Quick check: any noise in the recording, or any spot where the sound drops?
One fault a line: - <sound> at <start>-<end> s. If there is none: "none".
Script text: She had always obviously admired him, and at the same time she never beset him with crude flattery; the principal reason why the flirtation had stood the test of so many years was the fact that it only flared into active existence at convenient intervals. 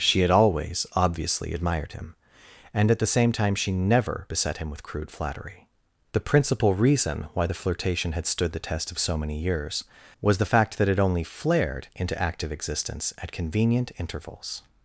none